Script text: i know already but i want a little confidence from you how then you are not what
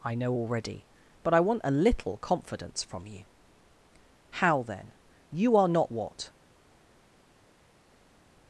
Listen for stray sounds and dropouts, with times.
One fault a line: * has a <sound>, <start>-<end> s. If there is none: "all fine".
all fine